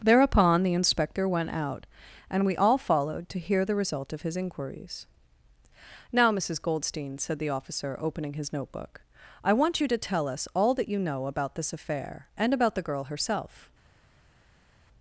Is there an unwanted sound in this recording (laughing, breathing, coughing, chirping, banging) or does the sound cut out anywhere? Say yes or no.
no